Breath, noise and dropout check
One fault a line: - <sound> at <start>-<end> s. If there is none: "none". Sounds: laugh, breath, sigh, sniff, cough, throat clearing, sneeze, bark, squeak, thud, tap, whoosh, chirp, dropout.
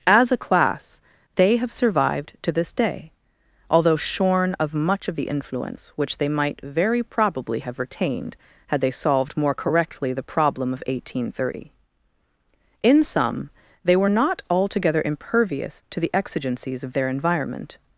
none